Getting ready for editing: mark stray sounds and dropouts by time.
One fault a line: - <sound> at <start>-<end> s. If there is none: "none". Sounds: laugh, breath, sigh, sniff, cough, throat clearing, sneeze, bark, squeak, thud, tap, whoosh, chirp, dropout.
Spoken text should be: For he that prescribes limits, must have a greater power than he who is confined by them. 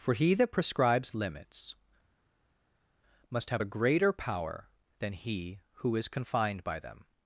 none